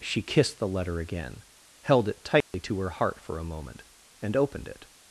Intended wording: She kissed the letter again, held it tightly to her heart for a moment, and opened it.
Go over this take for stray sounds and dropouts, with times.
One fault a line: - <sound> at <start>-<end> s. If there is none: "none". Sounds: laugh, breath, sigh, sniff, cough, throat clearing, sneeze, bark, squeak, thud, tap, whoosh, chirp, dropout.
- dropout at 2.4-2.5 s